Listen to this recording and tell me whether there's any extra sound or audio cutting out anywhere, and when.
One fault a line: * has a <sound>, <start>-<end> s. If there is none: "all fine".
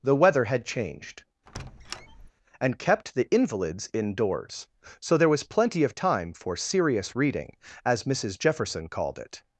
* has a squeak, 1.5-2.3 s